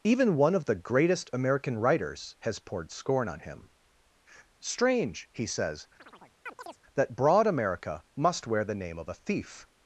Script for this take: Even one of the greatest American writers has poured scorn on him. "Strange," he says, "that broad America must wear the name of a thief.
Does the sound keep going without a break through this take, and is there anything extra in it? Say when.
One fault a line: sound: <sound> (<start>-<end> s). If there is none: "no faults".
sound: chirp (6.0-6.8 s)